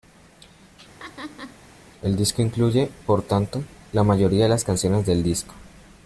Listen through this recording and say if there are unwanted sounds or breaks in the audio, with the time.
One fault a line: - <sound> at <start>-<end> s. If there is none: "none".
- laugh at 1.0-1.6 s